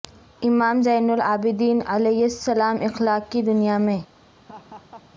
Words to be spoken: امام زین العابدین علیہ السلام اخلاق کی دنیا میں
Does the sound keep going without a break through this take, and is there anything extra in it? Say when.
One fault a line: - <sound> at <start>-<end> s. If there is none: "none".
- laugh at 4.3-5.1 s